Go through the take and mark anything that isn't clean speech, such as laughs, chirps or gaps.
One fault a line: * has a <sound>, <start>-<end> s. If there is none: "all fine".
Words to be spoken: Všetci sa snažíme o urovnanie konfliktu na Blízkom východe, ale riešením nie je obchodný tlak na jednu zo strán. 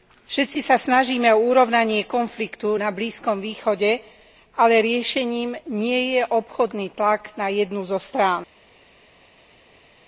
all fine